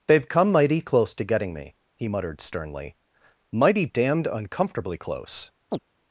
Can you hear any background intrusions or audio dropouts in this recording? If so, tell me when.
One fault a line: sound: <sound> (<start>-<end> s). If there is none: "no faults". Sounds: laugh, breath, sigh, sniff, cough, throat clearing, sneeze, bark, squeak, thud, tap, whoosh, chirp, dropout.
sound: chirp (5.7-5.8 s)